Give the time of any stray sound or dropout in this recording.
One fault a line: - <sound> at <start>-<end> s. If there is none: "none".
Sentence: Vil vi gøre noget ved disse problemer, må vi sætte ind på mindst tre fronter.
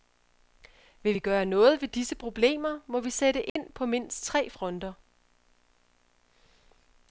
- dropout at 3.5-3.6 s